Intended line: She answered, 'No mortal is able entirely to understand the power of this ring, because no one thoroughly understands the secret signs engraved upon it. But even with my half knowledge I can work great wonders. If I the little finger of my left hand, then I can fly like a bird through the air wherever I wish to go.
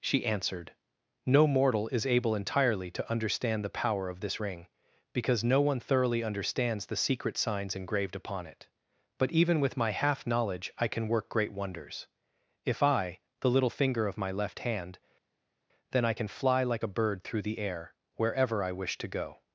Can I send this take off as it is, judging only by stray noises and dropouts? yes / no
yes